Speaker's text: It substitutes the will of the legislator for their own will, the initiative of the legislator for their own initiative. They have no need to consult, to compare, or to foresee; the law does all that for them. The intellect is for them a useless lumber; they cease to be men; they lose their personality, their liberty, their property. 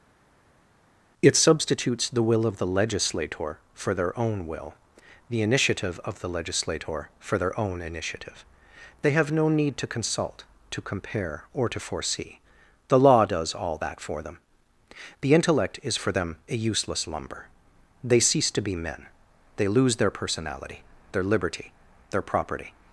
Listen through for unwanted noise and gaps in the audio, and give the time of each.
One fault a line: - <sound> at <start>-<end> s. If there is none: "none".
none